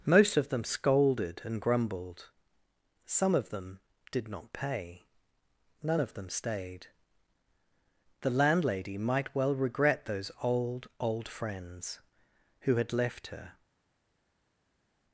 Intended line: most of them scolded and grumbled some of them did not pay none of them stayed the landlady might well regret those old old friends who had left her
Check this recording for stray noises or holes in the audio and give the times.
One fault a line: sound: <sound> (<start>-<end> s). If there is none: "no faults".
no faults